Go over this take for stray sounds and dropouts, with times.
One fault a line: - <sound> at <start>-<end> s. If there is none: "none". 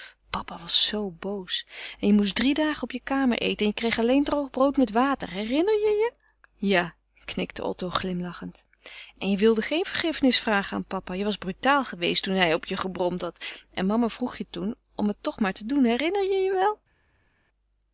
none